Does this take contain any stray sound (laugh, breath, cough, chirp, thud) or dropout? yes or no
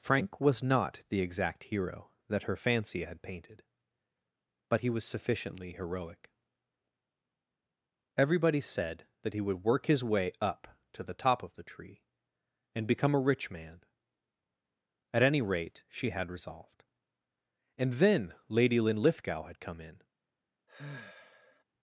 yes